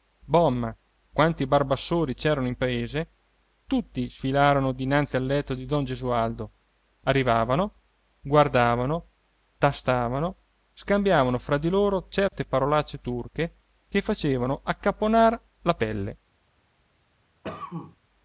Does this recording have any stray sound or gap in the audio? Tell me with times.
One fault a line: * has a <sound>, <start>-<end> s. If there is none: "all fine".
* has a dropout, 12.3-12.3 s
* has a cough, 17.4-18.0 s